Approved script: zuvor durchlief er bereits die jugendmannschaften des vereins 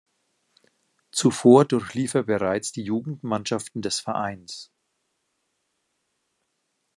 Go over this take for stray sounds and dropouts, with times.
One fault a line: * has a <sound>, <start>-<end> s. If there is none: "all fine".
all fine